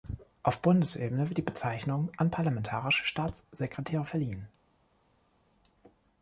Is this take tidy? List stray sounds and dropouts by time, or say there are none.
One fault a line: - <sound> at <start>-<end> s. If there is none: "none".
none